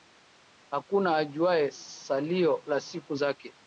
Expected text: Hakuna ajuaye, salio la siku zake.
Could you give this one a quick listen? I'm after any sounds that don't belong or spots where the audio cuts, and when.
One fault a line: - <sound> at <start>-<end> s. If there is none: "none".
none